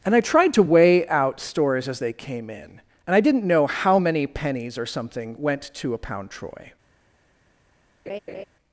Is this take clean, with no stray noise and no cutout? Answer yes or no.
no